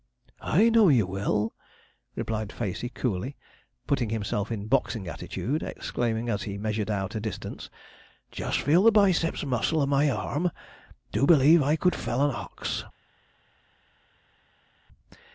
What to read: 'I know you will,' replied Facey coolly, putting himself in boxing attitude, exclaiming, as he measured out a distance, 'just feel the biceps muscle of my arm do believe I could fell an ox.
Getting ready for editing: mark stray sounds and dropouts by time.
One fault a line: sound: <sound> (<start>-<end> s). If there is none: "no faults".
no faults